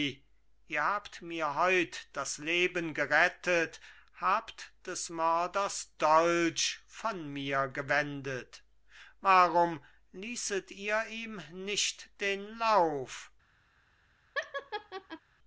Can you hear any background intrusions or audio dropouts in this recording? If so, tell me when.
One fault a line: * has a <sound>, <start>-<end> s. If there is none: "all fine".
* has a laugh, 14.4-15.2 s